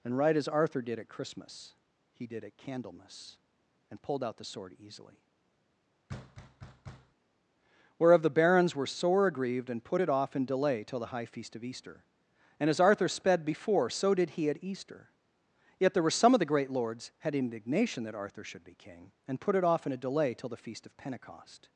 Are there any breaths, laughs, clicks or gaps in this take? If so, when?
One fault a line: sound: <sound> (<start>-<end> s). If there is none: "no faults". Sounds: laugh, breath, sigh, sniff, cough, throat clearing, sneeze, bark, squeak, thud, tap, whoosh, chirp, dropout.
sound: thud (6.1-7.1 s)